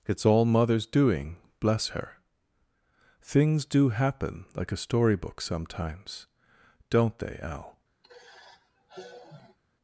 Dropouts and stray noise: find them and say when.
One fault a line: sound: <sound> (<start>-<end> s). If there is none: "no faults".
sound: sigh (8.0-9.6 s)